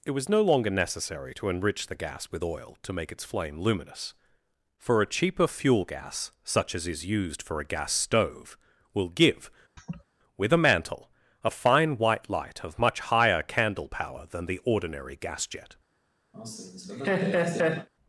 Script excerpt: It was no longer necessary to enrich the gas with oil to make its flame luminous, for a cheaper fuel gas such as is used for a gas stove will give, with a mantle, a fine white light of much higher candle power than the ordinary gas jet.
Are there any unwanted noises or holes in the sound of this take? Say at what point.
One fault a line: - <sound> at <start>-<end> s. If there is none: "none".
- laugh at 9.8-10.0 s
- laugh at 16.3-17.9 s